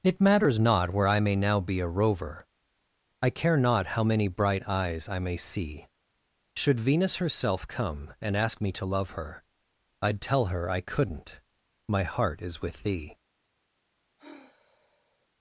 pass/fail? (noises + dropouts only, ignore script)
fail